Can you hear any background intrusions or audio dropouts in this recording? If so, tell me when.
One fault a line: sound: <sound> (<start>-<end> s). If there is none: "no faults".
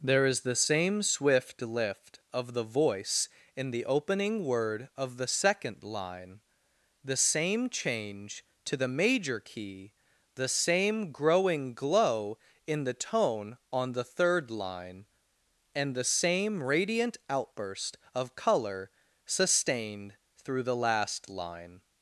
no faults